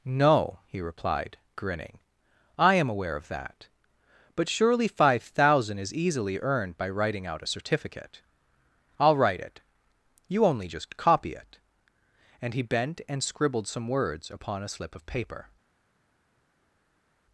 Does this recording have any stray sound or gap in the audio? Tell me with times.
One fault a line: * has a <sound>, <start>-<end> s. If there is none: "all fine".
all fine